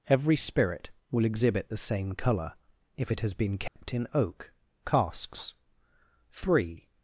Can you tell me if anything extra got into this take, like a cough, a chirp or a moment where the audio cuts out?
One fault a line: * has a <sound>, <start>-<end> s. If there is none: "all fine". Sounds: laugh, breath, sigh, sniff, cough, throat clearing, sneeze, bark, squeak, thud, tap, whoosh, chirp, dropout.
* has a dropout, 3.7-3.8 s